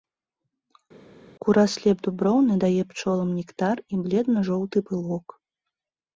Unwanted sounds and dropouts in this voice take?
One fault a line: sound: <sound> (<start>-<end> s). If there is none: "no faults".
no faults